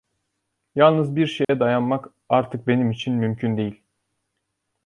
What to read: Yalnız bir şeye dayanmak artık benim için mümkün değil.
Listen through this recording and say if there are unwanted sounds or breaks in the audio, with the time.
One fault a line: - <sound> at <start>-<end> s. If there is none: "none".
- dropout at 1.4-1.5 s